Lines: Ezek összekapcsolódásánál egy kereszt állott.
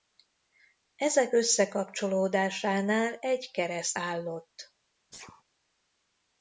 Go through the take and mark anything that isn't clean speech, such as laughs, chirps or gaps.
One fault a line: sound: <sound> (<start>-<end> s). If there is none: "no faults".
sound: sneeze (5.1-5.4 s)